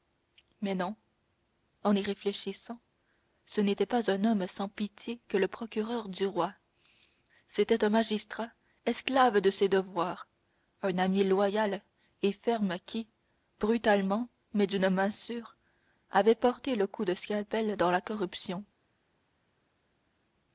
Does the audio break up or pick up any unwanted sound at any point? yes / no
no